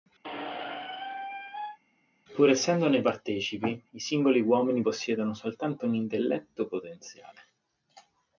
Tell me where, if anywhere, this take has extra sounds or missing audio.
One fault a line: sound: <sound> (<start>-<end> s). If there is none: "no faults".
sound: squeak (0.2-1.8 s)